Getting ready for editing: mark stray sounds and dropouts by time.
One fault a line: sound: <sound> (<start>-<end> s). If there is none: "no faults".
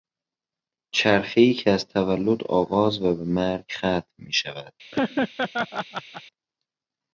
sound: laugh (4.9-6.2 s)